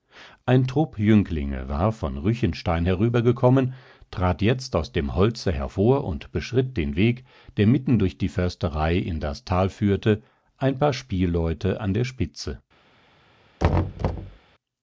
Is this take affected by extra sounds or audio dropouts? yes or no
yes